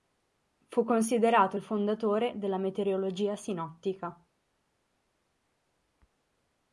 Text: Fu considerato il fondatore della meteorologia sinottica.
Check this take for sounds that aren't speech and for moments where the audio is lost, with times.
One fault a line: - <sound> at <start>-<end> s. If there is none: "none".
none